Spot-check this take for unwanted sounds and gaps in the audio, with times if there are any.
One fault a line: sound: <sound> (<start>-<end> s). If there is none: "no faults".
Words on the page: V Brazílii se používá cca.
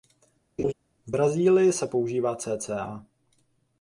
sound: laugh (0.6-0.7 s)